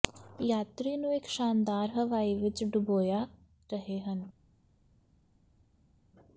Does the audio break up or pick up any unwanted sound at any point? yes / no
no